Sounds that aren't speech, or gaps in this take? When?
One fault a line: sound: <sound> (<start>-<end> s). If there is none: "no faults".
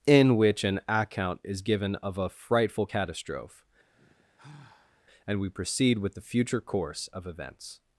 sound: sigh (3.9-5.0 s)